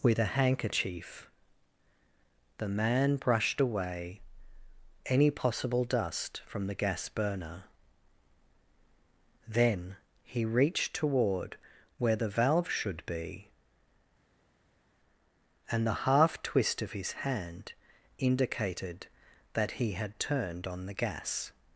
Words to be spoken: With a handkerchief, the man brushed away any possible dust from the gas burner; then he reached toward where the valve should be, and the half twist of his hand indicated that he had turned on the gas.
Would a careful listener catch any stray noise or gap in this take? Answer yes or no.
no